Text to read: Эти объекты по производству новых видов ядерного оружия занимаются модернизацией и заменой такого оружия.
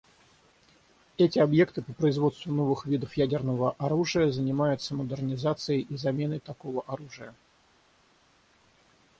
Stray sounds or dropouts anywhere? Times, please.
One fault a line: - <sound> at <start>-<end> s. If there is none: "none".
none